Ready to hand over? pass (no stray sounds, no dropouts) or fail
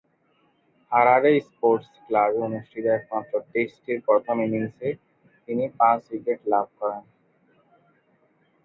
pass